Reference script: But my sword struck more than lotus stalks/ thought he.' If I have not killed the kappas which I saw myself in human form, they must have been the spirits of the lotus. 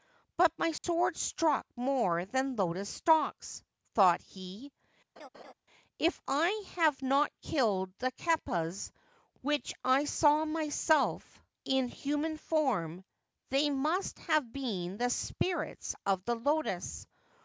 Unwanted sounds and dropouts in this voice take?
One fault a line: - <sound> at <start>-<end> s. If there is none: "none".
- dropout at 0.8-0.8 s
- laugh at 5.2-5.5 s